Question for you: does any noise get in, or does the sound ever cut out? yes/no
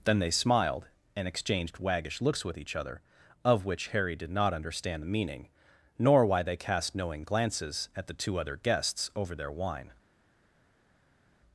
no